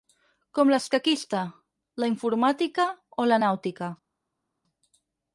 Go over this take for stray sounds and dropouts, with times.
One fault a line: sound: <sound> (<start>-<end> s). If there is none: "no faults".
no faults